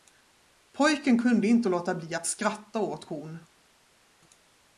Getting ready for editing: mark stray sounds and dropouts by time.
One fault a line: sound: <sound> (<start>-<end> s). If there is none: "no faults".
no faults